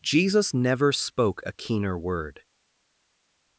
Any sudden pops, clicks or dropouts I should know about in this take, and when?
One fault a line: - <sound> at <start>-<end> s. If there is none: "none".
none